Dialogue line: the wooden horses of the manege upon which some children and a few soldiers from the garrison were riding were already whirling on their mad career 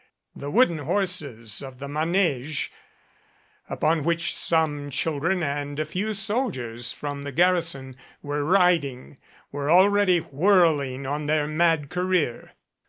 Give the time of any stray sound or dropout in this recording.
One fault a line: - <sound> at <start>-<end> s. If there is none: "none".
none